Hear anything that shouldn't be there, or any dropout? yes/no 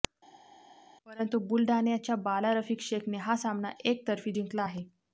no